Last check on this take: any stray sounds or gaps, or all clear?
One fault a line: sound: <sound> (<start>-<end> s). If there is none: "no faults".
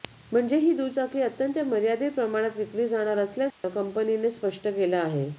sound: dropout (3.5-3.6 s)